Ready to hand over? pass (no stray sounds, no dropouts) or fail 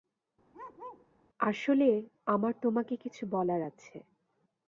fail